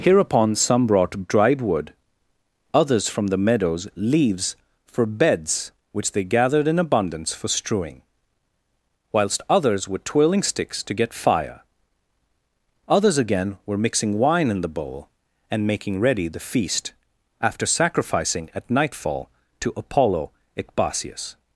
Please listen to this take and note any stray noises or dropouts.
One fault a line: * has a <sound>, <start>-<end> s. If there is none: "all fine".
all fine